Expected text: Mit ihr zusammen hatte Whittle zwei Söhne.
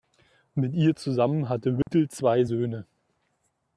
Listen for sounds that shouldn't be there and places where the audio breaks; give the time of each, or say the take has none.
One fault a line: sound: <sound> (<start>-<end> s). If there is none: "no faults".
sound: dropout (1.8-1.9 s)